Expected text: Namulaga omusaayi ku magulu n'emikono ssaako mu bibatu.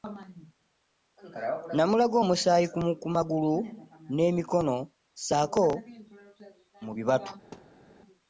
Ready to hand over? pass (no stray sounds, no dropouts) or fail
fail